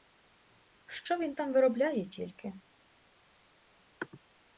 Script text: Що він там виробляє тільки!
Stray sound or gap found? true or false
false